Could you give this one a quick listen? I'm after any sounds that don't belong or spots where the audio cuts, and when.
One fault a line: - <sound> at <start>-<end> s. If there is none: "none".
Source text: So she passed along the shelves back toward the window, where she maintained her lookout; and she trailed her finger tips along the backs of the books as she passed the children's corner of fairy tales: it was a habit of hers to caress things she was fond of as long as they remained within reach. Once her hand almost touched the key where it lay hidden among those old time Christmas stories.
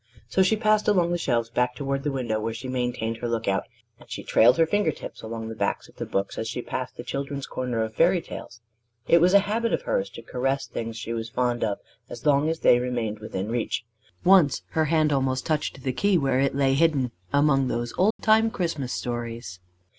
- dropout at 18.1-18.2 s